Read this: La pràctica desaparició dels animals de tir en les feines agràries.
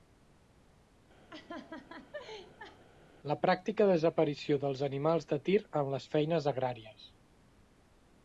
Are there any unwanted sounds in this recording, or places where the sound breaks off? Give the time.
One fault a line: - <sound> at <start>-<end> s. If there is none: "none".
- laugh at 1.3-2.8 s